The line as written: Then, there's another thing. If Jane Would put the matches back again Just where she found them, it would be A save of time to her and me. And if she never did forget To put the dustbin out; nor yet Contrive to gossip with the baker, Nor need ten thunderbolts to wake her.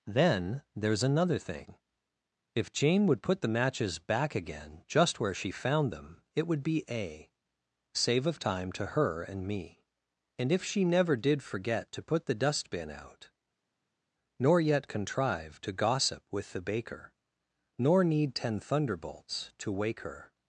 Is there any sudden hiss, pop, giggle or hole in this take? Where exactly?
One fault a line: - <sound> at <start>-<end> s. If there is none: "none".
none